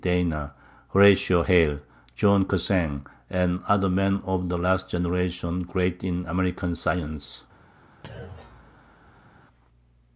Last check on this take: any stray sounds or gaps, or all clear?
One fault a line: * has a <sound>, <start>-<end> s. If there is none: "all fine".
* has a thud, 8.0-9.4 s